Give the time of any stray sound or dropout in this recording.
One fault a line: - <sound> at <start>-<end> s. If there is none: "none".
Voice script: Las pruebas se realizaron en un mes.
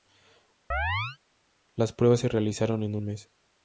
- chirp at 0.7-1.2 s